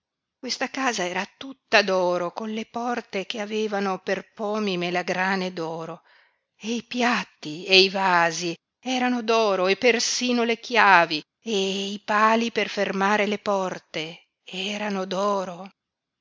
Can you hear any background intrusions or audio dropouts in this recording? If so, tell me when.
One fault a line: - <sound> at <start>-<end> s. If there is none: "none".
none